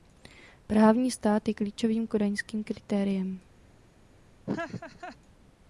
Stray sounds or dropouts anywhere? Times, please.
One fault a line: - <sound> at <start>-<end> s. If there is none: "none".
- laugh at 4.5-5.2 s